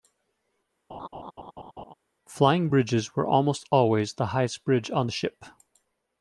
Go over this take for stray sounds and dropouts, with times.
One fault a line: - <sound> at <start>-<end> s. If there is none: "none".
- laugh at 0.9-1.9 s